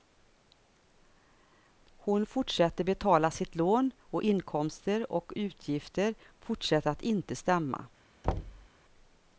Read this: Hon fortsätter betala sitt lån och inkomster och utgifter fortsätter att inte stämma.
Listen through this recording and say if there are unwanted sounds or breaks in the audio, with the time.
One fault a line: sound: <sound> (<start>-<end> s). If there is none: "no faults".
sound: thud (8.2-8.7 s)